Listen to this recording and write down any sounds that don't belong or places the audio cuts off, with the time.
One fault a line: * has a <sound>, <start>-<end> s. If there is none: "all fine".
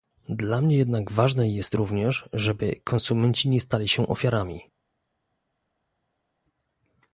all fine